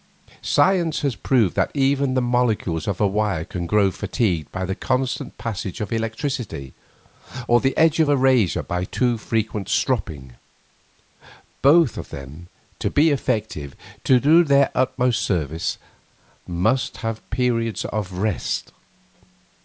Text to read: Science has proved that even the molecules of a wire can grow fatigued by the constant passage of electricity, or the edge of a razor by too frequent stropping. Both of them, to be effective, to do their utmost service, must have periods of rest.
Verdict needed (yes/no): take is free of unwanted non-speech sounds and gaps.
yes